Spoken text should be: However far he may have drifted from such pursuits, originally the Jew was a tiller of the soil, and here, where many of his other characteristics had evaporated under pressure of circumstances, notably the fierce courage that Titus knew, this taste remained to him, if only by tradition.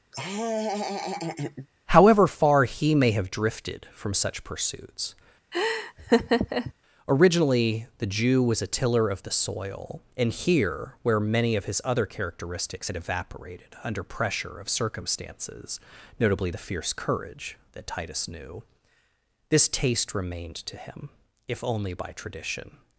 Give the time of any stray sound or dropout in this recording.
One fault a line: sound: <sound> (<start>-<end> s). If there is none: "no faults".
sound: laugh (0.1-1.7 s)
sound: laugh (5.5-6.7 s)